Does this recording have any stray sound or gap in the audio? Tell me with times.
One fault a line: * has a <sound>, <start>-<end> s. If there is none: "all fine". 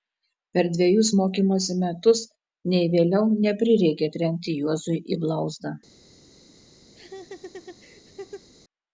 * has a laugh, 6.9-8.5 s